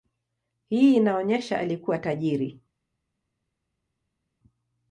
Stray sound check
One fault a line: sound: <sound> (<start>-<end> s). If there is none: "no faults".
no faults